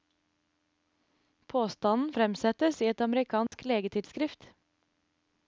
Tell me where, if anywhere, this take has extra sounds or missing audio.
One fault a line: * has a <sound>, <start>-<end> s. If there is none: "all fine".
* has a dropout, 3.5-3.5 s